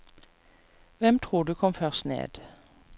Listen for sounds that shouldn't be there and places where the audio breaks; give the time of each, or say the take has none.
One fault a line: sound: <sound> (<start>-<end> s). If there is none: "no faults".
no faults